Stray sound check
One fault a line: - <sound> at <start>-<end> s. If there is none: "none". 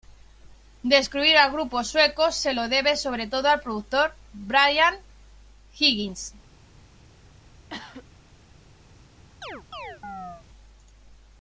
- cough at 7.7-8.1 s
- chirp at 9.4-10.5 s